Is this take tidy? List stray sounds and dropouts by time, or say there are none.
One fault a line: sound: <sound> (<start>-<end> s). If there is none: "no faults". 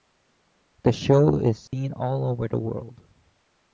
sound: dropout (1.7-1.7 s)